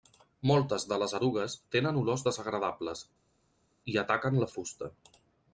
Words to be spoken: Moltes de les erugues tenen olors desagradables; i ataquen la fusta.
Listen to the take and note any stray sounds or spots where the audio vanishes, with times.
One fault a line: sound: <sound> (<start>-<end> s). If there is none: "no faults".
no faults